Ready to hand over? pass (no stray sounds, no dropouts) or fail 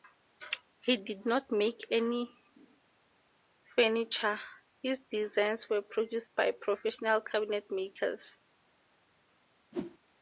fail